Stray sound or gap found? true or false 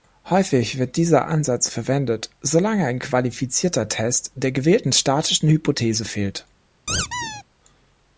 true